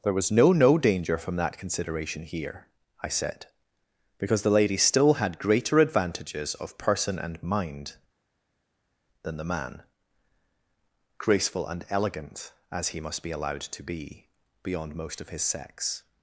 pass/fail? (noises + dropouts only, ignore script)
pass